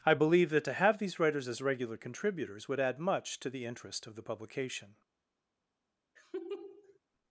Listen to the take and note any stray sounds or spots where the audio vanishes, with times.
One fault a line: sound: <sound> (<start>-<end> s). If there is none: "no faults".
sound: laugh (6.2-7.0 s)